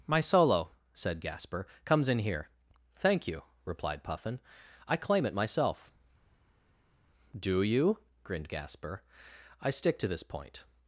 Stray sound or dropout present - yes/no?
no